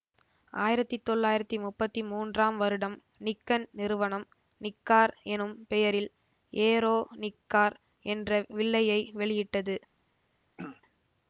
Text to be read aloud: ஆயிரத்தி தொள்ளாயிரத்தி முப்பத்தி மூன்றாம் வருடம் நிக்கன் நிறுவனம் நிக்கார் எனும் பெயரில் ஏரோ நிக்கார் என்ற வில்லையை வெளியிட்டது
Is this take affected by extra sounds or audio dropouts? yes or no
yes